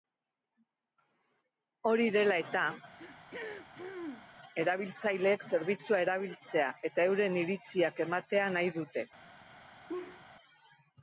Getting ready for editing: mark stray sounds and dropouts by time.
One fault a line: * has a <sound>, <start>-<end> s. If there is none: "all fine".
* has a throat clearing, 3.0-4.3 s
* has a laugh, 9.9-10.2 s